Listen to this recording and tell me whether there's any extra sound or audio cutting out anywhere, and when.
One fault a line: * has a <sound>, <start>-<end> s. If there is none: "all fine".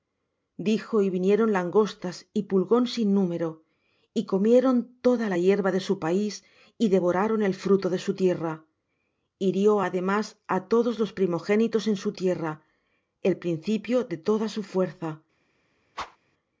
* has a whoosh, 15.9-16.2 s